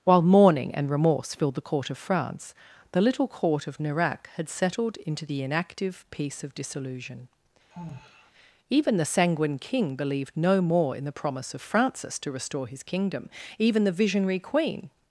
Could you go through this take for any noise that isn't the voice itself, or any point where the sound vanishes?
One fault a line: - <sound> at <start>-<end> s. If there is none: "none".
- sigh at 7.7-8.3 s